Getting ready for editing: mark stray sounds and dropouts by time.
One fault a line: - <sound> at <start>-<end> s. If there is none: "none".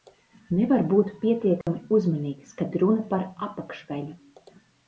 - dropout at 1.6-1.7 s